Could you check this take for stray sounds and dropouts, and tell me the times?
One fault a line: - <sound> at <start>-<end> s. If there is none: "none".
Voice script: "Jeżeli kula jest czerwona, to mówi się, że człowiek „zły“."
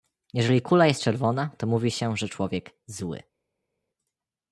none